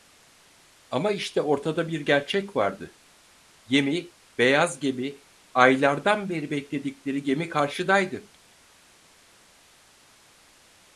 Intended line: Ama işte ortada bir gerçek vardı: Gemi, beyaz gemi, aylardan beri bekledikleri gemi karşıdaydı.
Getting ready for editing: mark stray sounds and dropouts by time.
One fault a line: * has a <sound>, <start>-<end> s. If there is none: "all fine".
all fine